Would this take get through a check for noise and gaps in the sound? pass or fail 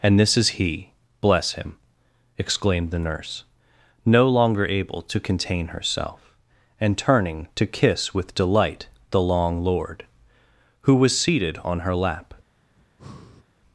fail